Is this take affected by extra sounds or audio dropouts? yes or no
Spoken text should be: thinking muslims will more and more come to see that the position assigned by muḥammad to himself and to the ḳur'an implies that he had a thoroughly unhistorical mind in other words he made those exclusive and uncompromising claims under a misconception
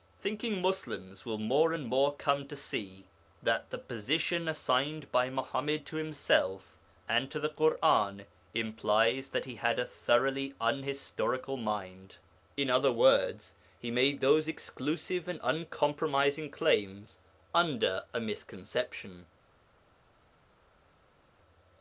no